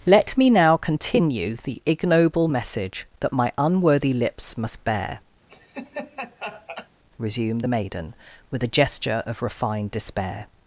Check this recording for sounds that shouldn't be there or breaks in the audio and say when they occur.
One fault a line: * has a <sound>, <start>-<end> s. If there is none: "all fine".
* has a laugh, 5.5-6.9 s